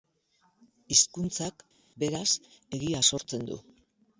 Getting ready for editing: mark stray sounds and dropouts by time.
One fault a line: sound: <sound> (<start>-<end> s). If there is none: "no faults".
no faults